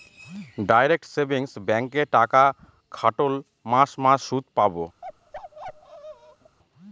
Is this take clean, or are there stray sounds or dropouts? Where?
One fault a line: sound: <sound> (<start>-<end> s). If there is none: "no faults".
sound: bark (5.0-6.6 s)